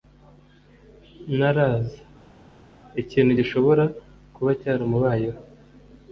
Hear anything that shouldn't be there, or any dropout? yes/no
no